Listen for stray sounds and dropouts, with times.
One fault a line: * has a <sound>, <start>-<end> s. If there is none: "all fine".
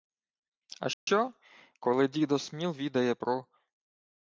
* has a dropout, 0.9-1.1 s